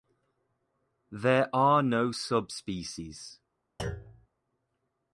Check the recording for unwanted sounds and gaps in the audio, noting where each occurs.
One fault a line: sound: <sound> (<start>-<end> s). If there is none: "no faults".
sound: thud (3.8-4.3 s)